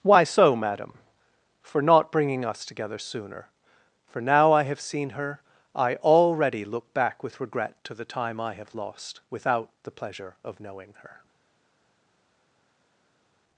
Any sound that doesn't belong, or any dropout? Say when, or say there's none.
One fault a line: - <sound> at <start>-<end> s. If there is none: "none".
none